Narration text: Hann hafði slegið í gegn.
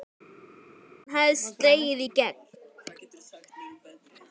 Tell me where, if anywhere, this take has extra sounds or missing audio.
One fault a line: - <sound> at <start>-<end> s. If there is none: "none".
none